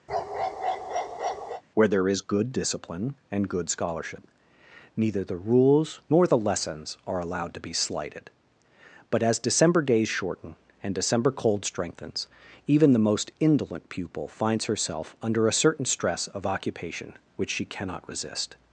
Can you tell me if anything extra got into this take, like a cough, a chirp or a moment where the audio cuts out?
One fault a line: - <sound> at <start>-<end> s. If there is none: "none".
- bark at 0.1-1.6 s